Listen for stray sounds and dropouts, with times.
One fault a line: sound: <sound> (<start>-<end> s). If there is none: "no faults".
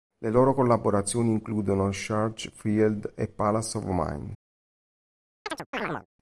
sound: chirp (5.5-6.1 s)